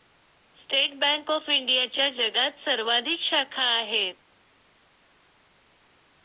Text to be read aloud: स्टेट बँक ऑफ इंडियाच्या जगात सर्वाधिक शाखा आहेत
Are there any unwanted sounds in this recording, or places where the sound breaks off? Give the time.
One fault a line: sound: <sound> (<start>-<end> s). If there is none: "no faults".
no faults